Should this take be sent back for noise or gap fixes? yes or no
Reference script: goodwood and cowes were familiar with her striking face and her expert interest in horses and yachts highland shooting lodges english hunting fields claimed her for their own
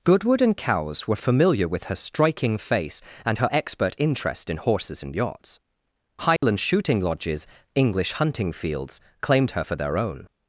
yes